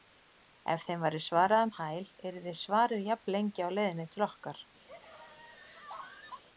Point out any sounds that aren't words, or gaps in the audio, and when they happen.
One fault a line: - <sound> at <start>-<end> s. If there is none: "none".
- laugh at 4.9-6.4 s